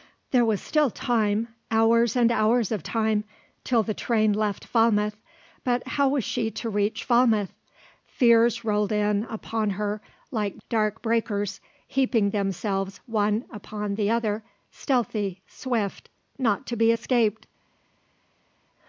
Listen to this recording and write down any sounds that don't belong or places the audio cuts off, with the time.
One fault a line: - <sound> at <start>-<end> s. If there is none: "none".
none